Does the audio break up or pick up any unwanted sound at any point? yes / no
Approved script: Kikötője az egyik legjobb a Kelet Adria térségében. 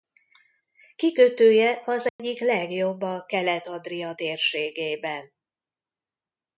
yes